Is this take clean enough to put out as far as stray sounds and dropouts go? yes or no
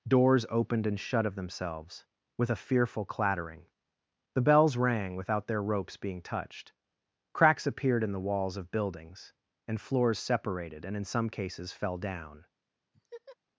no